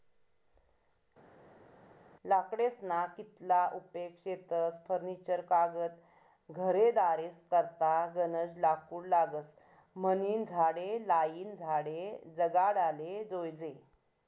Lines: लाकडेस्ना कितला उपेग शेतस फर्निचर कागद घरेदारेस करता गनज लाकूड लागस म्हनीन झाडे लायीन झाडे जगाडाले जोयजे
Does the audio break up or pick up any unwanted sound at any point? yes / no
no